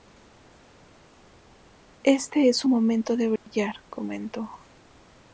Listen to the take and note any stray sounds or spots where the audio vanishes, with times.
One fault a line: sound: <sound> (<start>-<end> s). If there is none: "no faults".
sound: dropout (3.4-3.5 s)